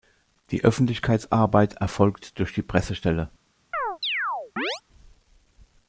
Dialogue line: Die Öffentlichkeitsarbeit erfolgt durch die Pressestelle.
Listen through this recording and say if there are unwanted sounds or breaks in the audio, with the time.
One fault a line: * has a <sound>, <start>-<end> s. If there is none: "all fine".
* has a chirp, 3.7-4.8 s